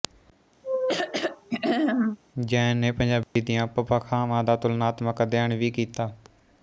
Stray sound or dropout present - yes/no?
yes